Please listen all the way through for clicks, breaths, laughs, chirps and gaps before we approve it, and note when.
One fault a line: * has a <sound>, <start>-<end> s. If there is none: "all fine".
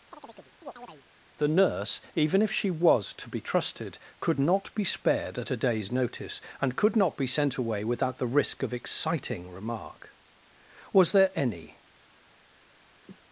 * has a chirp, 0.1-1.0 s
* has a cough, 13.1-13.2 s